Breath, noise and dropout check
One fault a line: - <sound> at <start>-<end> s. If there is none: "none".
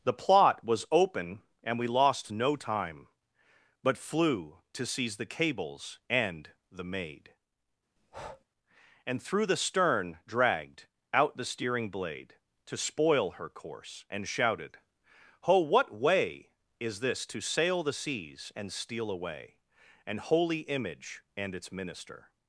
- breath at 8.0-8.4 s